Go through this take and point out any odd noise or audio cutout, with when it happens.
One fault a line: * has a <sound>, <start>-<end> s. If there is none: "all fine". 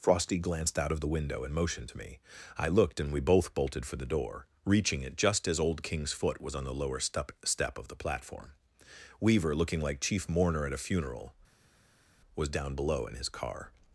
all fine